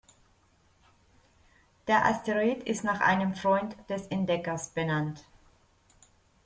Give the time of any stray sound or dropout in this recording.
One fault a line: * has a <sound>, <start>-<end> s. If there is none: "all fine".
all fine